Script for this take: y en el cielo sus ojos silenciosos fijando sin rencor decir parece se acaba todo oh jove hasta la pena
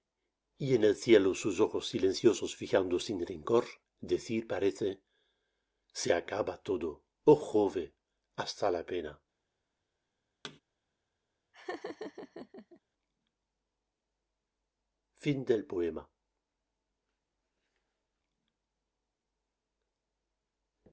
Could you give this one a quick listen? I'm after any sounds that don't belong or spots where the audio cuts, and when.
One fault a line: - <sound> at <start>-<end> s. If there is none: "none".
- thud at 10.4-10.6 s
- laugh at 11.5-12.8 s